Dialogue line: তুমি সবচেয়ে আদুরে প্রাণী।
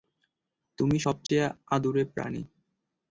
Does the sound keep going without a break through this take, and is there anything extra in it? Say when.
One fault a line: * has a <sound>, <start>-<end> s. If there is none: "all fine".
* has a dropout, 1.3-1.3 s